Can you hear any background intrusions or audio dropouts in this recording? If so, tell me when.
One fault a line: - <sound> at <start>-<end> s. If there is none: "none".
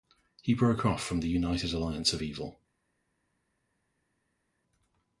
none